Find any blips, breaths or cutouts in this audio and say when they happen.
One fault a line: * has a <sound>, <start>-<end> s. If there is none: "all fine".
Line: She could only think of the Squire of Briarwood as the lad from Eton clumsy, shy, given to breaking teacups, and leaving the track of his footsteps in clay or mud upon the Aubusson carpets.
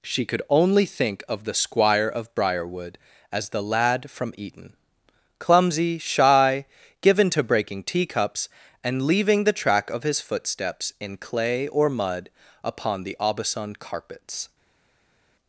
all fine